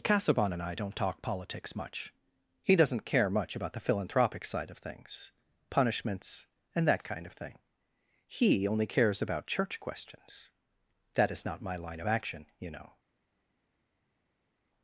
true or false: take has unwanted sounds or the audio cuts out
false